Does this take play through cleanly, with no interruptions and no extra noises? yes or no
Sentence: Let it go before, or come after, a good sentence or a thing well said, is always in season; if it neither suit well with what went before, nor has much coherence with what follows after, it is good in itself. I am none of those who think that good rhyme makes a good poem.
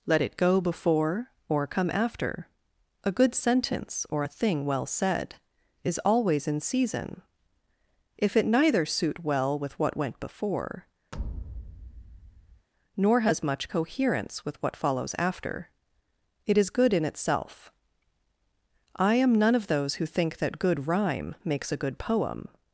no